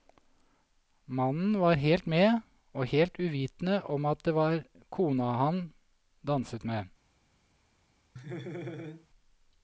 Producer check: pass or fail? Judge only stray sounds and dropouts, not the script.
fail